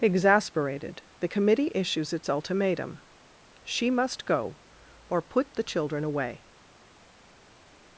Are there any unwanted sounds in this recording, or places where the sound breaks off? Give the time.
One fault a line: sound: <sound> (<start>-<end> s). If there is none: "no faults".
no faults